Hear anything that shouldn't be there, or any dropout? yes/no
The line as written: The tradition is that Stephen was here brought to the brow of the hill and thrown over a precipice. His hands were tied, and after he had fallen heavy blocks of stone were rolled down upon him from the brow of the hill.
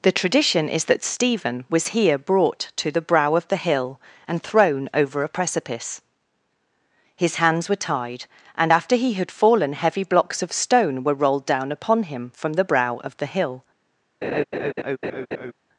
yes